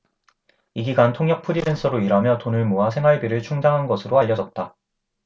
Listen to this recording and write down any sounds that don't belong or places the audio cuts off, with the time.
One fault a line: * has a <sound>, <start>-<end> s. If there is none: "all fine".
all fine